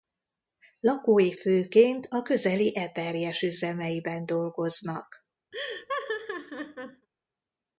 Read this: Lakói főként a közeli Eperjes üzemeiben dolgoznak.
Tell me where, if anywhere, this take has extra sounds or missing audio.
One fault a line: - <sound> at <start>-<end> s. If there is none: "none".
- laugh at 5.5-7.1 s